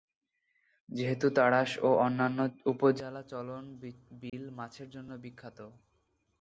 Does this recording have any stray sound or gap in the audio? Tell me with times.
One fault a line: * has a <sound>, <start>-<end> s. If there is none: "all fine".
* has a dropout, 4.3-4.3 s